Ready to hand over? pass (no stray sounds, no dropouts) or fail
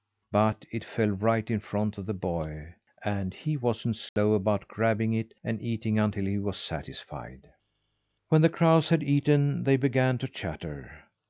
fail